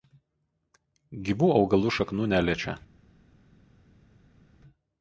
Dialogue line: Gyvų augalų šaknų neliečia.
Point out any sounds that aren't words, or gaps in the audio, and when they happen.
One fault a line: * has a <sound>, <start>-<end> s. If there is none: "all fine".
all fine